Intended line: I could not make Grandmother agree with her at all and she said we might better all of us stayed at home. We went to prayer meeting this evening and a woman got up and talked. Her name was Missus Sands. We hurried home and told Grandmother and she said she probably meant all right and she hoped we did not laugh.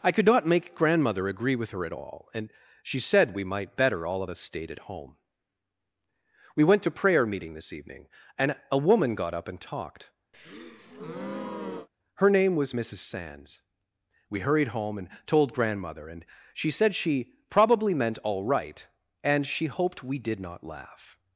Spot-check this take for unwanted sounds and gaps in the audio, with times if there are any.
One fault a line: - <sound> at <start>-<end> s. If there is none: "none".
- breath at 10.3-11.9 s